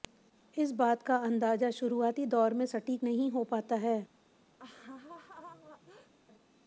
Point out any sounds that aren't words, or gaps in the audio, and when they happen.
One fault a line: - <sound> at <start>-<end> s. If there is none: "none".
- laugh at 4.6-6.1 s